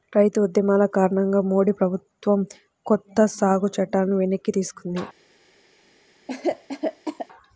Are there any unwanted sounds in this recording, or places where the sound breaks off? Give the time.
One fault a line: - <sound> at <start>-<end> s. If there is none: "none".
- cough at 6.3-7.3 s